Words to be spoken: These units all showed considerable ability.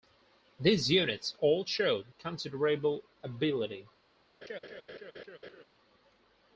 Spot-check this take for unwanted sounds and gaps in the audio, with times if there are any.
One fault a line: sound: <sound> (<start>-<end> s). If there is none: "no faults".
sound: laugh (4.4-5.6 s)